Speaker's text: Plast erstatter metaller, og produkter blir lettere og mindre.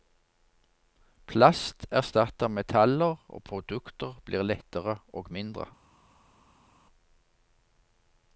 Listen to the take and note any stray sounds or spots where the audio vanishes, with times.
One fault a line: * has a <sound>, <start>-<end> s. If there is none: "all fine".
all fine